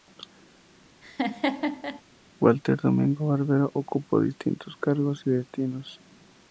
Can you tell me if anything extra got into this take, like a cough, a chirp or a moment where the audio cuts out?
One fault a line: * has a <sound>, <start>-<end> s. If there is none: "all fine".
* has a laugh, 1.0-2.0 s